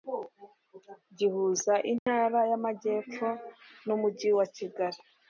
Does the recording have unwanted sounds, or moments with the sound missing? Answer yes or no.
yes